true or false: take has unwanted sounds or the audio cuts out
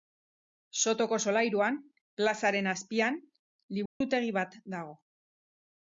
true